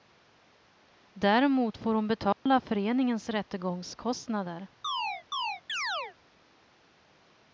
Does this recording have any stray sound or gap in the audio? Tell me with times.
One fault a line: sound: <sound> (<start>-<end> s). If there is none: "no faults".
sound: dropout (2.3-2.5 s)
sound: chirp (4.8-6.2 s)